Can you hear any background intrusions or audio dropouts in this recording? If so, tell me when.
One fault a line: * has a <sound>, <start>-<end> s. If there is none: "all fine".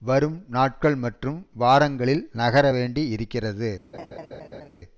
* has a laugh, 3.9-4.7 s